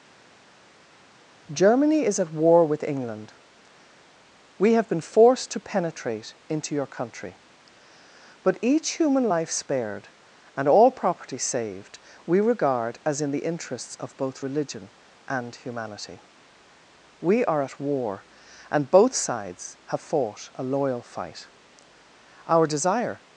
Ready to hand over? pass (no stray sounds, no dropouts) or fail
pass